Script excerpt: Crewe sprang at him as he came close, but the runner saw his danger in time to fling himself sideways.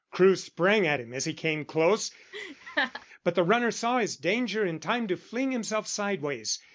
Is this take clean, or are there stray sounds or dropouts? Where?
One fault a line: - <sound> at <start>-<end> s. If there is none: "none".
- laugh at 2.3-3.1 s